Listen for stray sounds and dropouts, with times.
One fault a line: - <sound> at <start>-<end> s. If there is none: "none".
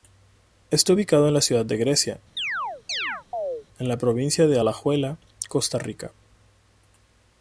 - chirp at 2.4-3.7 s